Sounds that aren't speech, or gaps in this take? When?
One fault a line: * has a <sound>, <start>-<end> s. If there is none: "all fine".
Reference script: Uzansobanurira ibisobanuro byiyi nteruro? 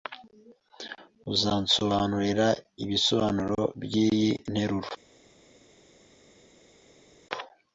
all fine